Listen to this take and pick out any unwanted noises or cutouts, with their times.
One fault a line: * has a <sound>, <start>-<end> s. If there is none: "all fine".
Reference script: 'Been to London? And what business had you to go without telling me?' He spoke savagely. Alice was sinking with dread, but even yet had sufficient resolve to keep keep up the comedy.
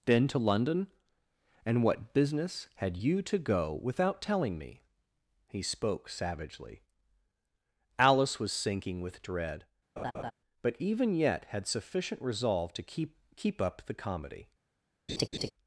* has a laugh, 10.0-10.3 s
* has a laugh, 15.1-15.5 s